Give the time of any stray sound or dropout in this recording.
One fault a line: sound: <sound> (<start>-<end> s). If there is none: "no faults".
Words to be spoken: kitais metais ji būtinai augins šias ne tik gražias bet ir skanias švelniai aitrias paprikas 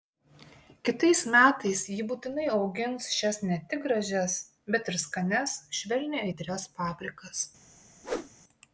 sound: whoosh (8.0-8.3 s)